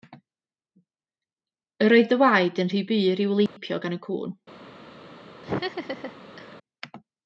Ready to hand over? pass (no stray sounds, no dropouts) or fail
fail